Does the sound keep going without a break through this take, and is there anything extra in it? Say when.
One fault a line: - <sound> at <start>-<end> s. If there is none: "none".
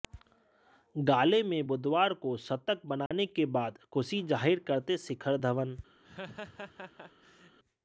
- dropout at 3.1-3.1 s
- laugh at 6.0-7.6 s